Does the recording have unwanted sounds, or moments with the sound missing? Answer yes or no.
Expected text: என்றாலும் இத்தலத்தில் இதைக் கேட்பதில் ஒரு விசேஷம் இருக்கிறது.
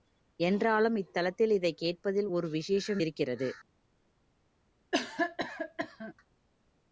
yes